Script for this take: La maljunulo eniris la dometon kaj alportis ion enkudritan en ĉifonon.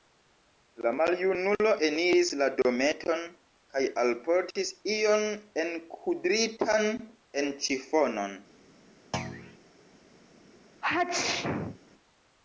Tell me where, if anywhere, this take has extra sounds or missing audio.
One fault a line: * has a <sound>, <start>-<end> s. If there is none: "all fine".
* has a thud, 9.1-9.6 s
* has a sneeze, 10.8-11.8 s